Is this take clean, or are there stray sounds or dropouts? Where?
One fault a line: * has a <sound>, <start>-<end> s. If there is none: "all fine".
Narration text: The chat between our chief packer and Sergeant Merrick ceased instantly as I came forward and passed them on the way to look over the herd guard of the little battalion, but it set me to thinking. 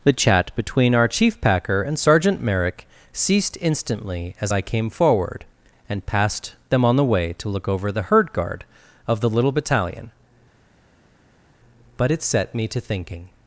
all fine